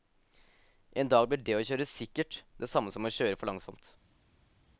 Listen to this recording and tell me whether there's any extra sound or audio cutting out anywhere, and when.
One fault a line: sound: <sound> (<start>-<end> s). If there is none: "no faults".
no faults